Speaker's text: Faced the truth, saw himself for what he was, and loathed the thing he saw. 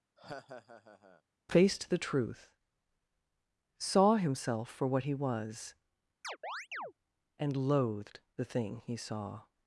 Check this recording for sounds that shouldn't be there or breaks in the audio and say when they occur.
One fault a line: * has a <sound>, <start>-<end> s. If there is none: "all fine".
* has a laugh, 0.2-1.2 s
* has a chirp, 6.2-6.9 s